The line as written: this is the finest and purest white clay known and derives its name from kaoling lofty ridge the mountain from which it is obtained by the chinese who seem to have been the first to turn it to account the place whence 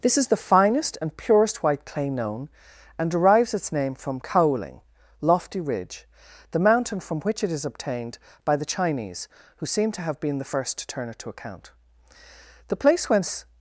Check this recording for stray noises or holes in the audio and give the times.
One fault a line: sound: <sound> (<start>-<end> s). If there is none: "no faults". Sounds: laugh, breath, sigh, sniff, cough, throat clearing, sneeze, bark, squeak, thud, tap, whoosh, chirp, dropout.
no faults